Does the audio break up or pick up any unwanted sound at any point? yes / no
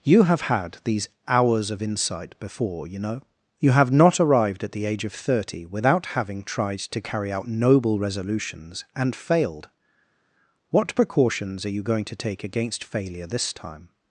no